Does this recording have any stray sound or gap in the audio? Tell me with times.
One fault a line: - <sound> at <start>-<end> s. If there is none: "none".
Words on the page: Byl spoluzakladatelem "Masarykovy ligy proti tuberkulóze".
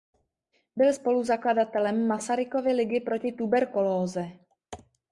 none